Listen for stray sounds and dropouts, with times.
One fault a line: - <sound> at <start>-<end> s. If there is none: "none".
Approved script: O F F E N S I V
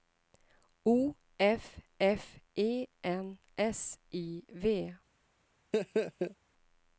- laugh at 5.7-6.4 s